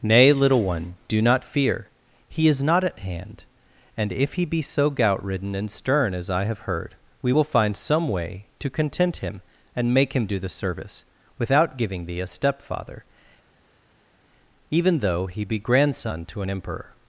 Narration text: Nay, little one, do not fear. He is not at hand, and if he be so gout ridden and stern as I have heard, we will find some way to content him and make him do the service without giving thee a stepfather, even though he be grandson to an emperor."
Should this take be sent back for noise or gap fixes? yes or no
no